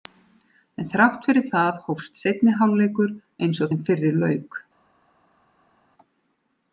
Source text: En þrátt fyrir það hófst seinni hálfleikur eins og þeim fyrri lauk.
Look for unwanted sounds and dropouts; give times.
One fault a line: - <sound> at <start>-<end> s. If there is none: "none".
none